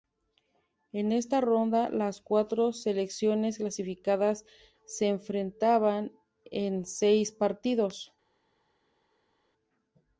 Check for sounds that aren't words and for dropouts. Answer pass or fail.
pass